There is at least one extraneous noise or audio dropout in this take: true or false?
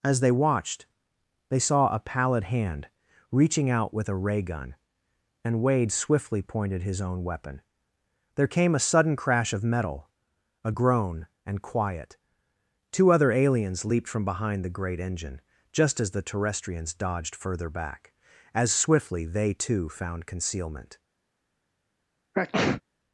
true